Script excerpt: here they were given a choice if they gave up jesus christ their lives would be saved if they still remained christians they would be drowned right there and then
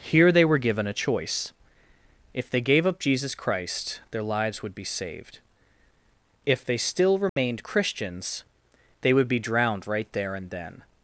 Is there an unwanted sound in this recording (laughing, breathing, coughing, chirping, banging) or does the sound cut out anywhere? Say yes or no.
yes